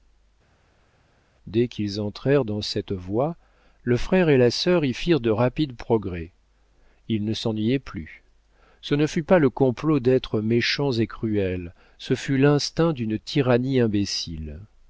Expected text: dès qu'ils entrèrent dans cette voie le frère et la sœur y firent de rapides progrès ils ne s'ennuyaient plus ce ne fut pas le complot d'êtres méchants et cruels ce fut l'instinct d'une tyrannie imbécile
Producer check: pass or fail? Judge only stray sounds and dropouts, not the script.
pass